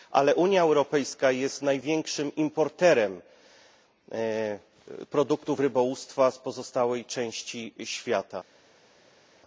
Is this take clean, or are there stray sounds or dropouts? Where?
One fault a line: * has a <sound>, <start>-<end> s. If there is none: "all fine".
all fine